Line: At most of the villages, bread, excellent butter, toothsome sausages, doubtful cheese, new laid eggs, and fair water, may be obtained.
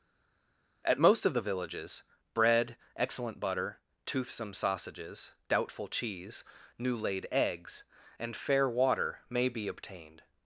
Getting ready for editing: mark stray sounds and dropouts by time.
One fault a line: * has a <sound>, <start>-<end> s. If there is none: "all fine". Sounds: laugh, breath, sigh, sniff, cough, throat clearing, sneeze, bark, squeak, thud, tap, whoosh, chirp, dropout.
all fine